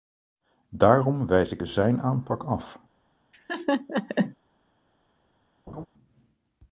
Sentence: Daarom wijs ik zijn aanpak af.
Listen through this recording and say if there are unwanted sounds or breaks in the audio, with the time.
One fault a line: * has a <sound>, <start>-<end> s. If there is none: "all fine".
* has a laugh, 3.3-4.4 s
* has a laugh, 5.7-5.9 s